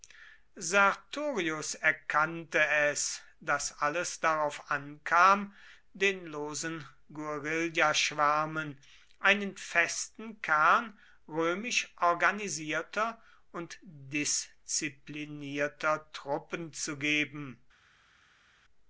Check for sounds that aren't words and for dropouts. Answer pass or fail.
pass